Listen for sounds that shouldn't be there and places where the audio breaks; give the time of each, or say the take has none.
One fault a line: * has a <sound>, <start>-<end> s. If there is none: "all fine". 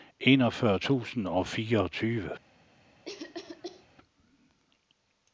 * has a cough, 3.1-3.9 s